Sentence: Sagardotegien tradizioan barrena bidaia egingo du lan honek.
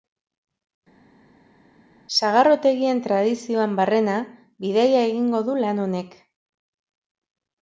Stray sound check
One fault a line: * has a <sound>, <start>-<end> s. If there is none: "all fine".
all fine